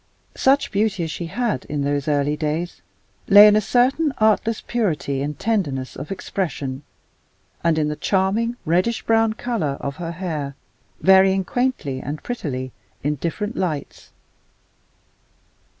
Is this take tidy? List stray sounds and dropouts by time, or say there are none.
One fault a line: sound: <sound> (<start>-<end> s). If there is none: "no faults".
no faults